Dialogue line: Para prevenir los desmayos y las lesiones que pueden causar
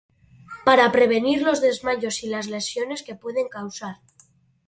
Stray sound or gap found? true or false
false